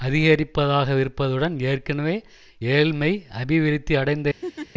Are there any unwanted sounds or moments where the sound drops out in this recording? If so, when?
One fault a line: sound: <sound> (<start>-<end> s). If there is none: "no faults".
sound: laugh (4.4-4.7 s)